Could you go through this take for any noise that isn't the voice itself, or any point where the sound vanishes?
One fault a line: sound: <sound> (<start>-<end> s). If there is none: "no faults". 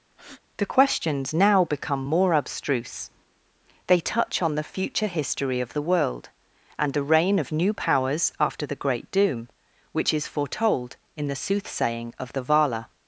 sound: breath (0.1-0.4 s)